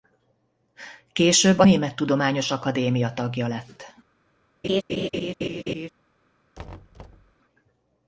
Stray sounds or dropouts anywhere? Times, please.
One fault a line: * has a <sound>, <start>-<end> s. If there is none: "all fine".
* has a laugh, 4.6-5.9 s
* has a thud, 6.6-7.3 s